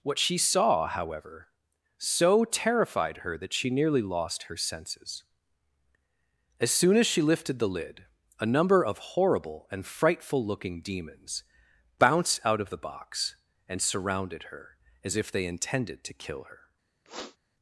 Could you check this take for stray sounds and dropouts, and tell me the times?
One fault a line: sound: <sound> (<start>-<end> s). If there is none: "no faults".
sound: sniff (17.1-17.4 s)